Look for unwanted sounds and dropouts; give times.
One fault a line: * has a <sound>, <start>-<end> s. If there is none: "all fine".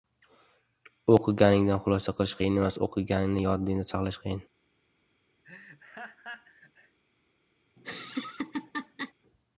* has a laugh, 5.4-7.0 s
* has a laugh, 7.8-9.1 s